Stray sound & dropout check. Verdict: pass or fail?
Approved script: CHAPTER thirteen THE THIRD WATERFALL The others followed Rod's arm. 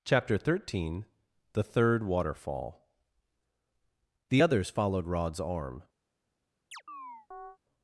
fail